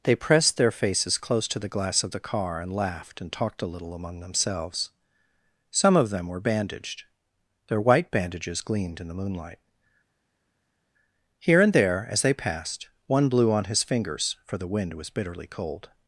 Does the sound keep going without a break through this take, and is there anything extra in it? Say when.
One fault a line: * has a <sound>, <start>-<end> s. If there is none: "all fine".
all fine